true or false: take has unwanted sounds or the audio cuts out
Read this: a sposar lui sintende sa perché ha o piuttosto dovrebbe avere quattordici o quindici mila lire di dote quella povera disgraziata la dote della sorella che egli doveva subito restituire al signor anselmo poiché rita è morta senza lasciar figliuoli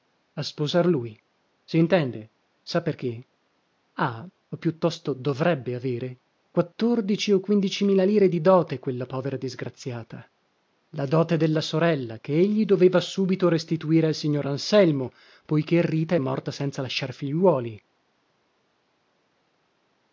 false